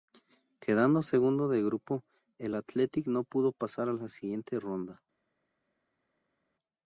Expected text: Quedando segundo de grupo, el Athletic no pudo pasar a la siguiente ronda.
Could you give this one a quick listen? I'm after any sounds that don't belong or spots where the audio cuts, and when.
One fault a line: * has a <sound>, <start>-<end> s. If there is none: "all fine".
all fine